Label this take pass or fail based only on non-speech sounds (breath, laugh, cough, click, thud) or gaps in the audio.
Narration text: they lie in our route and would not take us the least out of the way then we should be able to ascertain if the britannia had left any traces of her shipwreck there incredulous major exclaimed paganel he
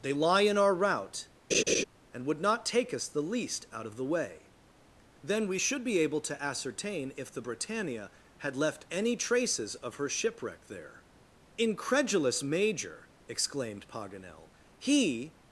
fail